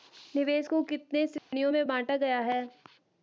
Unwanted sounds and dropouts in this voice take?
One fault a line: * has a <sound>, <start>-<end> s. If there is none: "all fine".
* has a dropout, 1.4-1.5 s